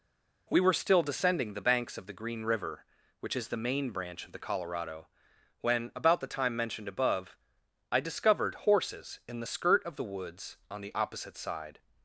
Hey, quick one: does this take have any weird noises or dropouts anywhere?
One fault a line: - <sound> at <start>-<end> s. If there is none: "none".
none